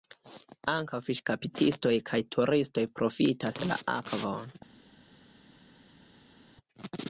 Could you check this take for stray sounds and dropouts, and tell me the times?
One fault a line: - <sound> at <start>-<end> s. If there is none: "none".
none